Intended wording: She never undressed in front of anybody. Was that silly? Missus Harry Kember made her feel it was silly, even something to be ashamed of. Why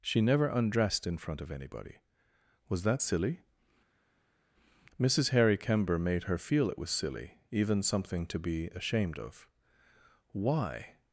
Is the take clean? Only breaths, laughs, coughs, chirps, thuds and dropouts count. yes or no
yes